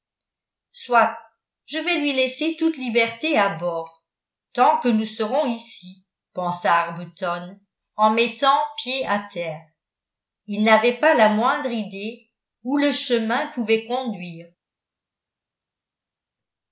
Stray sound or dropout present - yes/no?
no